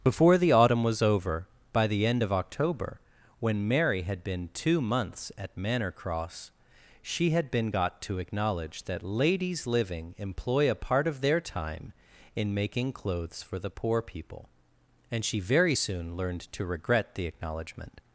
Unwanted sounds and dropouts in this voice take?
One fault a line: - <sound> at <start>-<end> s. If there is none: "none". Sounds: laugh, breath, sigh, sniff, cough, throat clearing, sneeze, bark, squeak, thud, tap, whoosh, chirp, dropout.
none